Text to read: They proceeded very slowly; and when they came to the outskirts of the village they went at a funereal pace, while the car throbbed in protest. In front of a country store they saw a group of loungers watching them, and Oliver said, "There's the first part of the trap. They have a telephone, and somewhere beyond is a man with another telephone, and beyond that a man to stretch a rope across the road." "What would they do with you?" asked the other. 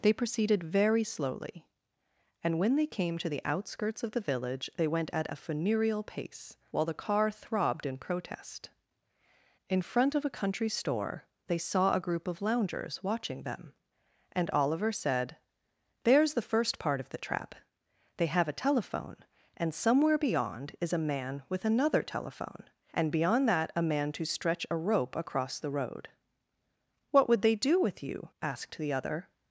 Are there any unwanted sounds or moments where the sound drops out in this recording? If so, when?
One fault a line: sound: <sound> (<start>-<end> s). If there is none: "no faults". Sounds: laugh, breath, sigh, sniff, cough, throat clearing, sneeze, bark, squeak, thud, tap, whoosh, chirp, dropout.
no faults